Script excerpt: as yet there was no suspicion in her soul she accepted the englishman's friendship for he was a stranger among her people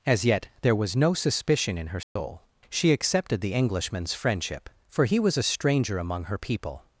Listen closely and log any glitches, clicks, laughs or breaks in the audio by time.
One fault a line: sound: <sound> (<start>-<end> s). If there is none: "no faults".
sound: dropout (2.0-2.2 s)